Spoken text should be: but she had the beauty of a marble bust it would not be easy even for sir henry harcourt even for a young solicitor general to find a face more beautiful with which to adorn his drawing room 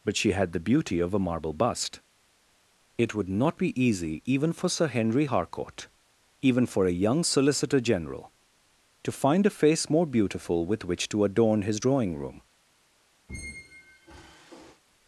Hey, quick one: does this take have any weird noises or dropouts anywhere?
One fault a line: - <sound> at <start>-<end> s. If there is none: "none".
- squeak at 13.3-14.8 s